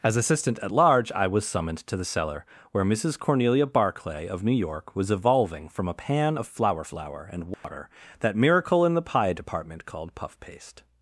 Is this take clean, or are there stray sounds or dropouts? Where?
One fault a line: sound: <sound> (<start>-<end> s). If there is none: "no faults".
sound: dropout (7.5-7.6 s)